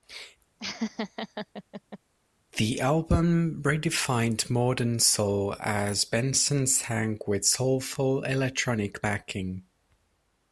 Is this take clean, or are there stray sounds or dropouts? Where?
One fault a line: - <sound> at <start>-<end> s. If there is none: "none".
- laugh at 0.6-2.0 s